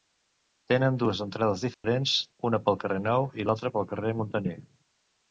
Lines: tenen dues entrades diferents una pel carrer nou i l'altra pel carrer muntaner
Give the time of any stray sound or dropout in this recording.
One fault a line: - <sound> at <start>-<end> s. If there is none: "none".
- dropout at 1.7-1.8 s